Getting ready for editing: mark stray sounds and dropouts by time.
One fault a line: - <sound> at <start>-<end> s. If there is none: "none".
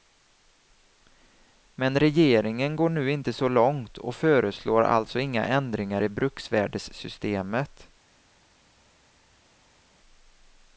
none